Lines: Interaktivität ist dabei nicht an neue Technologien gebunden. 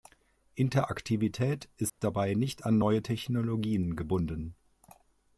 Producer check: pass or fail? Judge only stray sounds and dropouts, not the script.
fail